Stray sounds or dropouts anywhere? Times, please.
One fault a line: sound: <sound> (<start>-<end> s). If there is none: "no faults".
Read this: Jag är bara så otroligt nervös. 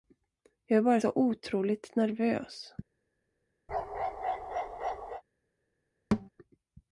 sound: bark (3.7-5.2 s)
sound: thud (6.1-6.3 s)